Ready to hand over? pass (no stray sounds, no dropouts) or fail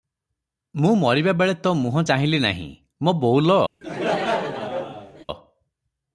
fail